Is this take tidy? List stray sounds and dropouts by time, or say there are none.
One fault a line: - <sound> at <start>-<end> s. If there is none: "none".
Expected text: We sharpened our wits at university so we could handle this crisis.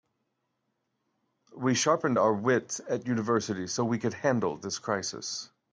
none